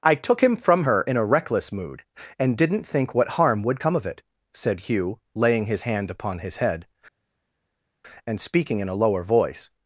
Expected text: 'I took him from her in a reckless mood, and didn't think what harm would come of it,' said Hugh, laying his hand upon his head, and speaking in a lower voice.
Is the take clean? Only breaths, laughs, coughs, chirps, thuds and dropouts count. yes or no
yes